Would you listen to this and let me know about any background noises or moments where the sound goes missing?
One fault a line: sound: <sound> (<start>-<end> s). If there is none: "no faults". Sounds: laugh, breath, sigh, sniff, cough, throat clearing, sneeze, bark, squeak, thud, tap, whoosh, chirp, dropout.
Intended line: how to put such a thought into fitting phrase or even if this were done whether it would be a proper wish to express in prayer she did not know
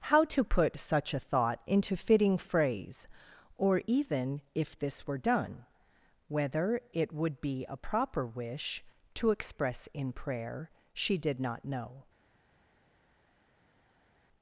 no faults